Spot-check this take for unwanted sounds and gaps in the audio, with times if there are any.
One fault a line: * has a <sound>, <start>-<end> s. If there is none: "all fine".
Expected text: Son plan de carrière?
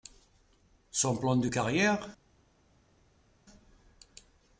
all fine